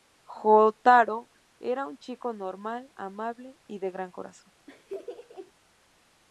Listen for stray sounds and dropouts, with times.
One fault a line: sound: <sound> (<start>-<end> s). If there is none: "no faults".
sound: laugh (4.7-5.5 s)